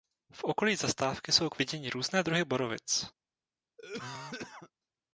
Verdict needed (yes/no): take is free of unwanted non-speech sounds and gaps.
no